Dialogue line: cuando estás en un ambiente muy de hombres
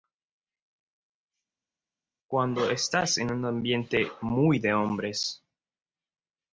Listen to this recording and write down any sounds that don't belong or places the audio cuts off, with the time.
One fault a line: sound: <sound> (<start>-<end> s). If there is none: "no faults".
no faults